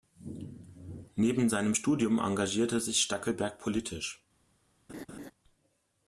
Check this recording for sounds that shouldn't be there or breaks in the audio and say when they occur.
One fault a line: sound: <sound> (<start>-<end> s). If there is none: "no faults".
sound: laugh (4.9-5.3 s)